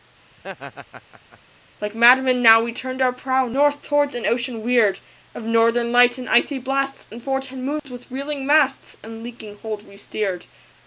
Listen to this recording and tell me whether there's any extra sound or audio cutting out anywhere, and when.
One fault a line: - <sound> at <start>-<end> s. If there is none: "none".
- laugh at 0.4-1.4 s
- dropout at 7.8-7.9 s